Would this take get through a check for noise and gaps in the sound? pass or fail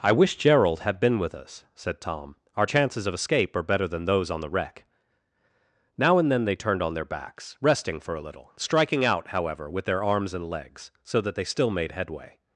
pass